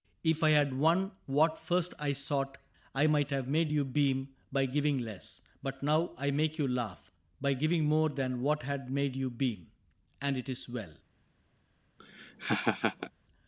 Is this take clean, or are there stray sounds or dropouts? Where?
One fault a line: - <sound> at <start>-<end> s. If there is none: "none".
- laugh at 12.0-13.1 s